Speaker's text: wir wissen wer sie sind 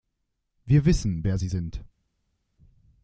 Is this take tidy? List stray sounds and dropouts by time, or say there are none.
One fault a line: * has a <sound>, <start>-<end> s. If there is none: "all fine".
all fine